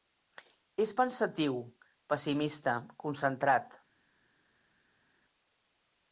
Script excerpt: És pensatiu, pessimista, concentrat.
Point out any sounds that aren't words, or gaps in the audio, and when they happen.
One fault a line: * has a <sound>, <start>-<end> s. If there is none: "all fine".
all fine